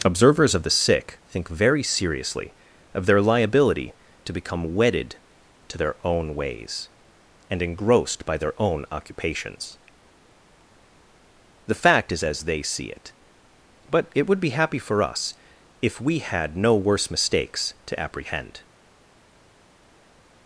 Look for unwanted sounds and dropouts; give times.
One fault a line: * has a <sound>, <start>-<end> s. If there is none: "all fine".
all fine